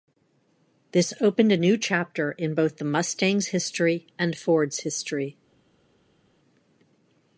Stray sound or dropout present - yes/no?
no